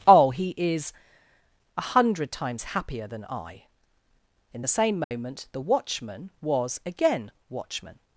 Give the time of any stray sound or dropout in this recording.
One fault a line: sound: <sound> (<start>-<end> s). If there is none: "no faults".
sound: dropout (5.0-5.1 s)